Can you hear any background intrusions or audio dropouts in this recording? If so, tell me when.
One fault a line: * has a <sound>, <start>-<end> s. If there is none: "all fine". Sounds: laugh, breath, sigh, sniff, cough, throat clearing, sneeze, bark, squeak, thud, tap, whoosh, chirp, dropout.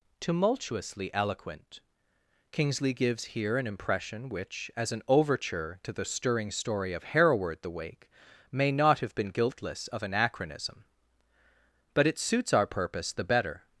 all fine